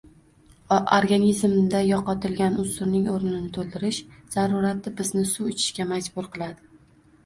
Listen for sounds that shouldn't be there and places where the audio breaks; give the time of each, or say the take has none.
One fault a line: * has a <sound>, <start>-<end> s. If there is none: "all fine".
all fine